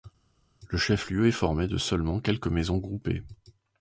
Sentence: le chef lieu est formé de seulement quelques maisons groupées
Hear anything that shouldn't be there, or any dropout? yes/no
no